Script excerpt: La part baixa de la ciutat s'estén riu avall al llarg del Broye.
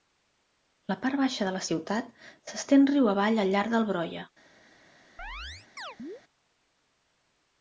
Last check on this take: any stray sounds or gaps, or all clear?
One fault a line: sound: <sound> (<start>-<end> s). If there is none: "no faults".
sound: chirp (5.2-6.2 s)